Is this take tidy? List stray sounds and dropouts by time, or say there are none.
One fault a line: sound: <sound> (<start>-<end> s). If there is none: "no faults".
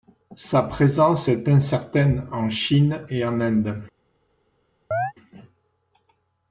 sound: chirp (4.9-5.1 s)